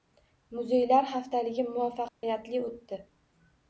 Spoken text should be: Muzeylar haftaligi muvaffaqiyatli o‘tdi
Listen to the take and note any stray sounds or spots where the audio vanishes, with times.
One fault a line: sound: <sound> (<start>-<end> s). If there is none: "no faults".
sound: dropout (2.1-2.2 s)